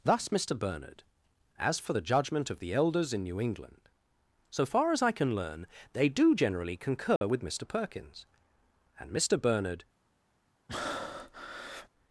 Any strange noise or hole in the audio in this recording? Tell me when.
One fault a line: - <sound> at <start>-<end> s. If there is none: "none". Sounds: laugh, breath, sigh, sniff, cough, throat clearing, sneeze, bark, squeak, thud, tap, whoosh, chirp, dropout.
- dropout at 7.2-7.2 s
- breath at 10.7-11.9 s